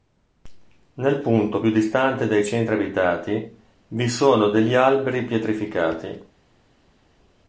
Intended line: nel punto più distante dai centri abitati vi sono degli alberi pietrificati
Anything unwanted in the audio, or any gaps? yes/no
no